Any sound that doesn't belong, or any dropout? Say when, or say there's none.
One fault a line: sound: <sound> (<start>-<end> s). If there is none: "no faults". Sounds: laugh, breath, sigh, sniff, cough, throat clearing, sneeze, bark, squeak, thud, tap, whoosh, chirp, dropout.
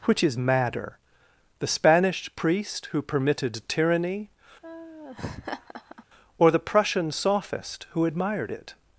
sound: laugh (4.6-6.0 s)